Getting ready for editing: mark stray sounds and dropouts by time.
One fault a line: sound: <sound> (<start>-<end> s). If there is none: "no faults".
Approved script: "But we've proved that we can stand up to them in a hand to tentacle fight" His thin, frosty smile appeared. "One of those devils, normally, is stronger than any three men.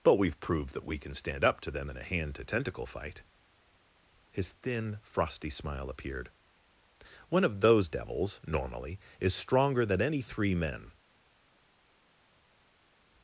no faults